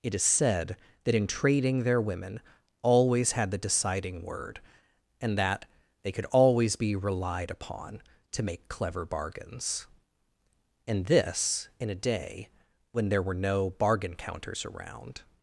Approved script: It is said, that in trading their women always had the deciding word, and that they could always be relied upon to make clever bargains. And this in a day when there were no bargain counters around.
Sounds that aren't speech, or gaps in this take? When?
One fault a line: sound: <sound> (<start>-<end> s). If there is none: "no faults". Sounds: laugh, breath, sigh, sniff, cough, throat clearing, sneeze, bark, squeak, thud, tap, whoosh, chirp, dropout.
no faults